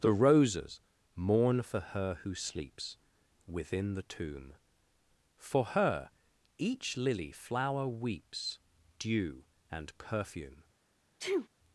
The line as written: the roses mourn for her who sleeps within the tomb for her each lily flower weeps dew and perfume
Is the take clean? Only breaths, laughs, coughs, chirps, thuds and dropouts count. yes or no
no